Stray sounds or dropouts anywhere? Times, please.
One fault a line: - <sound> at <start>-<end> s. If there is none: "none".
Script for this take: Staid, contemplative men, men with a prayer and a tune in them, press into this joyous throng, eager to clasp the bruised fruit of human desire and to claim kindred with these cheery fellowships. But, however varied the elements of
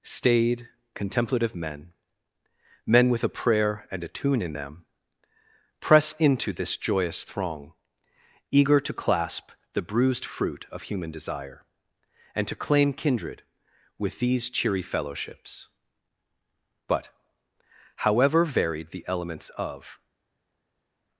none